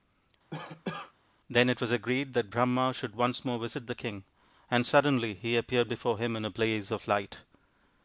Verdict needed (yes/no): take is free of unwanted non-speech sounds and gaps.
no